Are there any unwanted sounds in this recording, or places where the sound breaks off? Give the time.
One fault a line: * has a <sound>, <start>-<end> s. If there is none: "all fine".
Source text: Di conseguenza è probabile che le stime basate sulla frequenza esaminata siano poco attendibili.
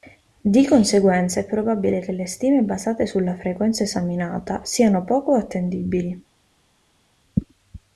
all fine